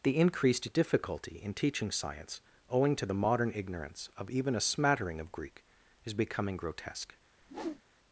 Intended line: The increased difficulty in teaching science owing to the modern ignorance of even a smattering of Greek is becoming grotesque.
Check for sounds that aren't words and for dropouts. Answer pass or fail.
fail